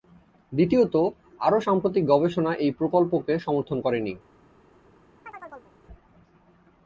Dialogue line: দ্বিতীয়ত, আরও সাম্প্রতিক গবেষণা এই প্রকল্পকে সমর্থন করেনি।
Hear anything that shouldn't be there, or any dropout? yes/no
yes